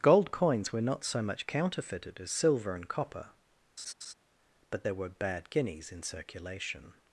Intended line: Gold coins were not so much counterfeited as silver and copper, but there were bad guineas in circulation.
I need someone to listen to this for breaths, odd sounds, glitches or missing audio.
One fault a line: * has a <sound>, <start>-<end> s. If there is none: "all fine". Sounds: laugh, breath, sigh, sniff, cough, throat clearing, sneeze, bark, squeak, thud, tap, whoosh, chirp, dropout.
* has a laugh, 3.8-4.1 s